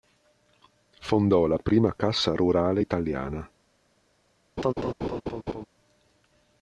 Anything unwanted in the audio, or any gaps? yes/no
yes